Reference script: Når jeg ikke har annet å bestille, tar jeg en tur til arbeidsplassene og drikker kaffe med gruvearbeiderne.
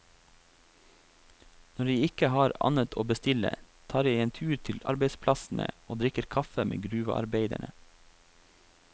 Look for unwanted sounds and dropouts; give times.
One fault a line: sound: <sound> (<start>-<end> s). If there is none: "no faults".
no faults